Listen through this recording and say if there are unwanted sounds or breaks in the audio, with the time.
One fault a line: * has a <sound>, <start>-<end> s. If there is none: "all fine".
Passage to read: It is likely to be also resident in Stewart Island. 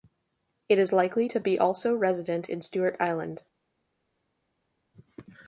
all fine